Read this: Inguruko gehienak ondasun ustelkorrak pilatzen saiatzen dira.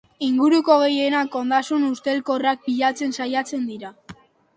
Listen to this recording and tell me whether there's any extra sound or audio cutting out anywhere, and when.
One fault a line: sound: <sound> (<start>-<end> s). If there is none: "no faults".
no faults